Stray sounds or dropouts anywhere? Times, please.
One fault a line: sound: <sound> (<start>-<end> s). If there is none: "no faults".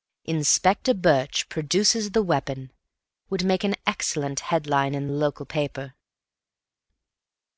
no faults